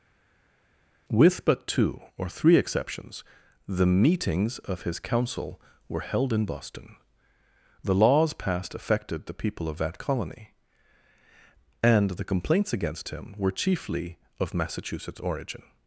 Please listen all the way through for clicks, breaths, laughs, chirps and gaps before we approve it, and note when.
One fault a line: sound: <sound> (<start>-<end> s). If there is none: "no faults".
no faults